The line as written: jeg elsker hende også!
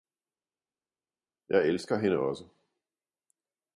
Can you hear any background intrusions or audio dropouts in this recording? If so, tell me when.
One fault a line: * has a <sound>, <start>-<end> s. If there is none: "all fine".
all fine